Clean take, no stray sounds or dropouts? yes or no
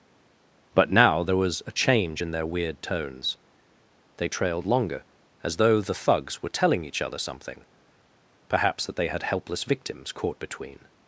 yes